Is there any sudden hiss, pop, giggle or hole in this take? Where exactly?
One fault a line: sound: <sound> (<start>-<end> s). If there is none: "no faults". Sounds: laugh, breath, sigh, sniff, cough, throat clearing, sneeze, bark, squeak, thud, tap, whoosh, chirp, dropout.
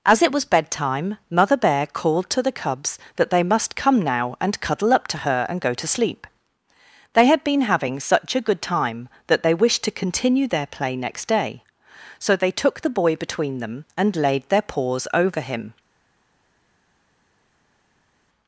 no faults